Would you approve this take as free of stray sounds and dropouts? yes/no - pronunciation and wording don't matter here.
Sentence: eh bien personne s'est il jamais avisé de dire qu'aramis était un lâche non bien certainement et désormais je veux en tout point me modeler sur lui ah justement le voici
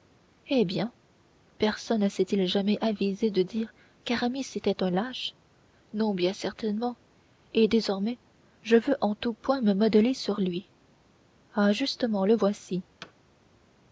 no